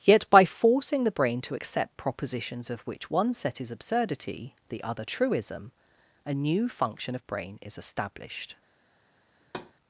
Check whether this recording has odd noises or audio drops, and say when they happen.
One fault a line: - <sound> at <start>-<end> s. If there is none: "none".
- thud at 9.4-9.7 s